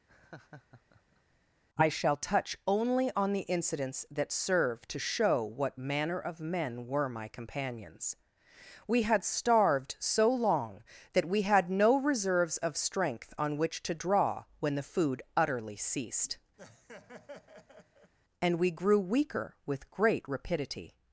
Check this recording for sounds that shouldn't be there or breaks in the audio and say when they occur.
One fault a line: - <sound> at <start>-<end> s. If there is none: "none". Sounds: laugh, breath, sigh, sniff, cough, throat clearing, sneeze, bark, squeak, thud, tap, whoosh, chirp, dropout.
- laugh at 0.1-1.4 s
- laugh at 16.6-18.1 s